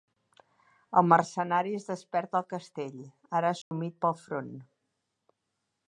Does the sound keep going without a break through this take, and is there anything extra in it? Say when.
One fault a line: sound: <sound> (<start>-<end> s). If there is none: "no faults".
sound: dropout (3.6-3.7 s)